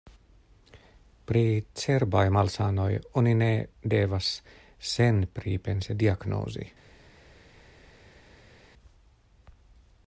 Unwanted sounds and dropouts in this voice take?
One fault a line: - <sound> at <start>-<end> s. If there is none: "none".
none